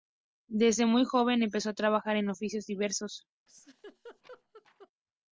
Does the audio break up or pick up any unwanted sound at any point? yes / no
yes